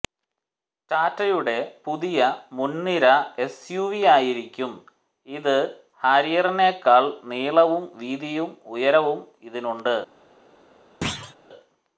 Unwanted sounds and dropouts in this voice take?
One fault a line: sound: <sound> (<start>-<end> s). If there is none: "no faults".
sound: thud (11.0-11.4 s)